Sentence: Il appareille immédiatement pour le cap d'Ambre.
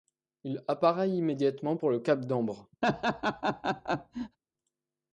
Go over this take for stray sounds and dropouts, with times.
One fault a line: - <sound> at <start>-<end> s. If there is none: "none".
- laugh at 2.8-4.4 s